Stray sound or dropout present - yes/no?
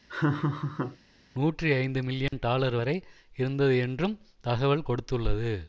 yes